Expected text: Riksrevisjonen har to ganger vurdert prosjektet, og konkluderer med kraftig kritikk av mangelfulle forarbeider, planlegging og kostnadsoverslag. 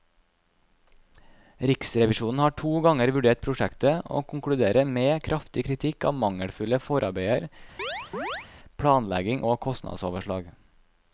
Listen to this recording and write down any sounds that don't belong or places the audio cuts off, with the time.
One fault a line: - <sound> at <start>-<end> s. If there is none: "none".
- chirp at 7.8-8.5 s